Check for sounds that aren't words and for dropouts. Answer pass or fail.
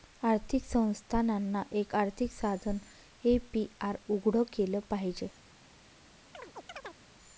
fail